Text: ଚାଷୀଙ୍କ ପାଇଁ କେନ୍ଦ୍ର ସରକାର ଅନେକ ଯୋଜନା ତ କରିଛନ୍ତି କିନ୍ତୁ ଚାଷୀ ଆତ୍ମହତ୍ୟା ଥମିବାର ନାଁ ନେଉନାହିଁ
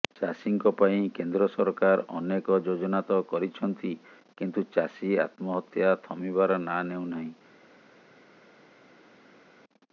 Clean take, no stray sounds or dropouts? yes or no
yes